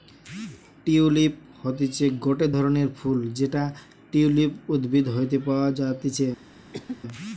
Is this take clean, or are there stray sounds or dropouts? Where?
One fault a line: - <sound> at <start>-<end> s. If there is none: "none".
- cough at 6.7-7.0 s